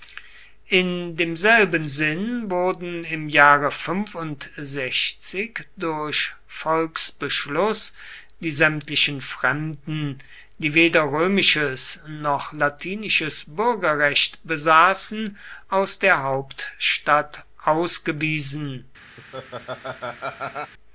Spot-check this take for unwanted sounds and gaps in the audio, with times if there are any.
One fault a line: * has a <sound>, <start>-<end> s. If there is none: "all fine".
* has a laugh, 19.2-20.7 s